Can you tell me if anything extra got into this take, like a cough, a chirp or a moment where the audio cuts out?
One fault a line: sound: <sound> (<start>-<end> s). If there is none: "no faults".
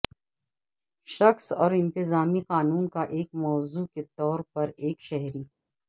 no faults